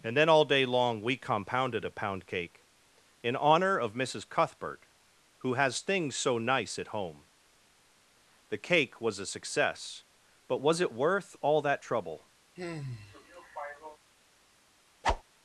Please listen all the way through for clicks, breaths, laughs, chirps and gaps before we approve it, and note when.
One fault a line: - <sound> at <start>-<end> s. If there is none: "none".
- sigh at 12.6-14.0 s
- whoosh at 15.0-15.2 s